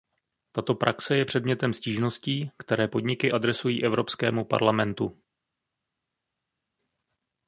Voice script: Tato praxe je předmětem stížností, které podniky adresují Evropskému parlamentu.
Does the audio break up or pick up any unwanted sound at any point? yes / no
no